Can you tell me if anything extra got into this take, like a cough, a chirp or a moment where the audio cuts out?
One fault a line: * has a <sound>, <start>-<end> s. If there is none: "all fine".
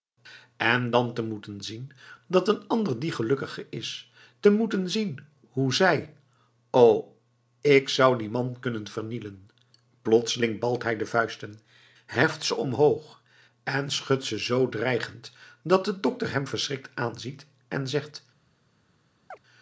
* has a chirp, 19.3-19.4 s